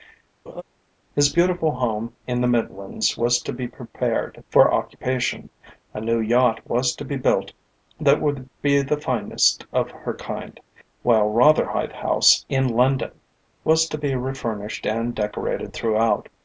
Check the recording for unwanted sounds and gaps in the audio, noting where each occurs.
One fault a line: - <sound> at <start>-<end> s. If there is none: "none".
- laugh at 0.5-0.6 s